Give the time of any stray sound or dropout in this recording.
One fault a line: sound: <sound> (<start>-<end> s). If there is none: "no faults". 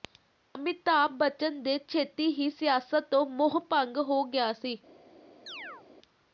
sound: chirp (5.5-5.9 s)